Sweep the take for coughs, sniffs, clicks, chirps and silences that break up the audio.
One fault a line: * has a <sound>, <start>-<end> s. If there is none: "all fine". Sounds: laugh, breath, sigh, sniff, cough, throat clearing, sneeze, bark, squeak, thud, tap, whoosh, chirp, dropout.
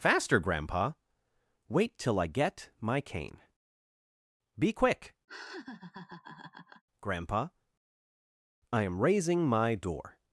* has a laugh, 5.3-6.8 s